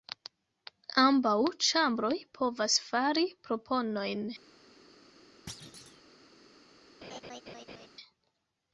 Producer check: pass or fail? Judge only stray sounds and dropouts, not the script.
fail